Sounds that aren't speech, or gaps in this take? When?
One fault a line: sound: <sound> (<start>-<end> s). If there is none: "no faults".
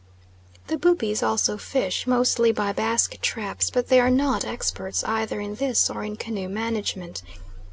no faults